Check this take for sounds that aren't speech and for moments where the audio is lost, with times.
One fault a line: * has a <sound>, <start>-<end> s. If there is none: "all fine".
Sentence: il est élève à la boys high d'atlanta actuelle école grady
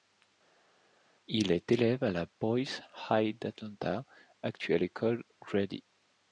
all fine